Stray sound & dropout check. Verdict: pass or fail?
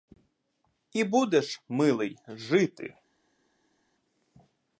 pass